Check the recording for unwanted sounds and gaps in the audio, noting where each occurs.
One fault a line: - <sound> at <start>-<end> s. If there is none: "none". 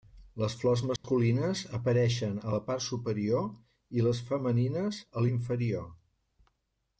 - dropout at 1.0-1.0 s